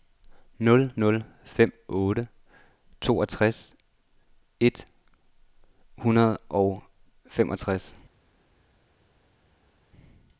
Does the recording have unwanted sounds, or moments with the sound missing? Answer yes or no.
no